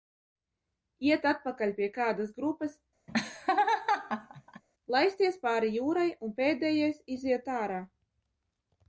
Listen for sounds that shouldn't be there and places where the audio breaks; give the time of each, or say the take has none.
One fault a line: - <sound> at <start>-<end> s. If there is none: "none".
- laugh at 3.1-4.6 s